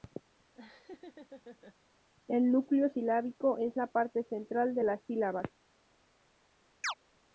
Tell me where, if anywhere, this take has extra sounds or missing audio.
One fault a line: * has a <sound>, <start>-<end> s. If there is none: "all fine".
* has a laugh, 0.5-1.8 s
* has a chirp, 6.8-6.9 s